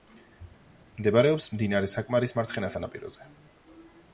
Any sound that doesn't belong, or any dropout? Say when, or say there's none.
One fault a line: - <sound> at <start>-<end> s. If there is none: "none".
none